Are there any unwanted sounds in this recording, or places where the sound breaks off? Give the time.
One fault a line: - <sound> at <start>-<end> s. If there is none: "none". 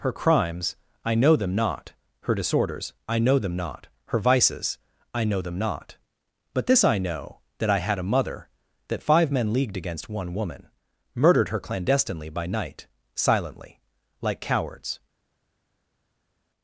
none